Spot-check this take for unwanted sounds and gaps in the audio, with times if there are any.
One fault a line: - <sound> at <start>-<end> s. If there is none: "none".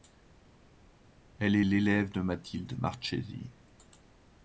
none